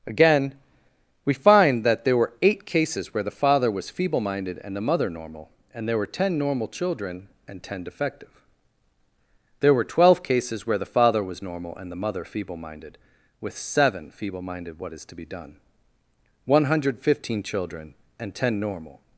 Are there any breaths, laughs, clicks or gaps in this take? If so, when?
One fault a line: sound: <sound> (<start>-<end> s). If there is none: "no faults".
no faults